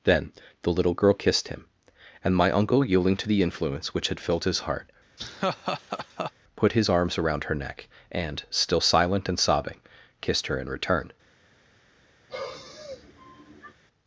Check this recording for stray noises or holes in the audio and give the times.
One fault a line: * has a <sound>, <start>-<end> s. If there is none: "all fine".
* has a laugh, 5.2-6.3 s
* has a sigh, 12.3-13.7 s